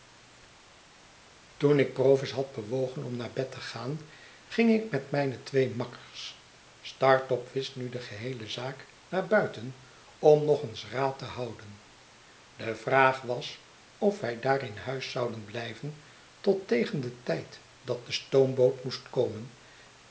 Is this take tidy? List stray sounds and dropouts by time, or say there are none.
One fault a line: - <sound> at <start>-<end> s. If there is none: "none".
none